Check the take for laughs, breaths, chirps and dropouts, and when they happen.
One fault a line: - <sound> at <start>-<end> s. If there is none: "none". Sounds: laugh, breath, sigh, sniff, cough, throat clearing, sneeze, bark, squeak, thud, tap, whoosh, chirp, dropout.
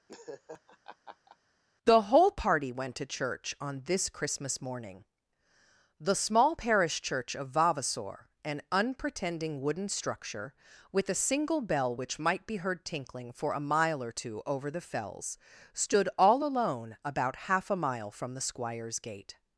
- laugh at 0.1-1.4 s